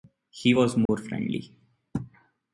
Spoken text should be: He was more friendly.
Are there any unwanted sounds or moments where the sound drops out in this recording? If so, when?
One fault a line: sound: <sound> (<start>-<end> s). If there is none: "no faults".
sound: dropout (0.9-0.9 s)